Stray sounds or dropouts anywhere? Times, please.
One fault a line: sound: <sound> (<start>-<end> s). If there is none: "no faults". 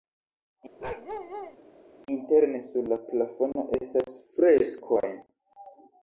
sound: bark (0.8-1.6 s)